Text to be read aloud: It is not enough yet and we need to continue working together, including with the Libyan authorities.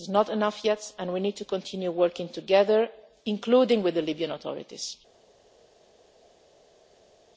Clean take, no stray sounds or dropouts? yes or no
yes